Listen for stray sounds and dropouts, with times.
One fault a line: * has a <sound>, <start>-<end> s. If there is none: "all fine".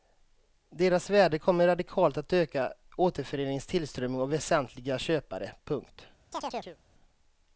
* has a chirp, 6.3-6.8 s